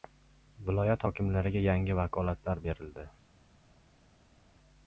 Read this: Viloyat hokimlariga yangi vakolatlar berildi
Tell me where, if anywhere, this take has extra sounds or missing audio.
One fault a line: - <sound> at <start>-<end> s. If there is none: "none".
none